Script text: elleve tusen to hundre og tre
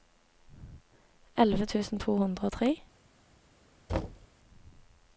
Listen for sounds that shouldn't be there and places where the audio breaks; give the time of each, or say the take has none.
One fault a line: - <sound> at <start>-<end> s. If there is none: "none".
- thud at 3.9-4.3 s